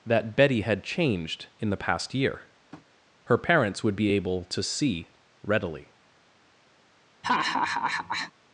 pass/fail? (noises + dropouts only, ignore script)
fail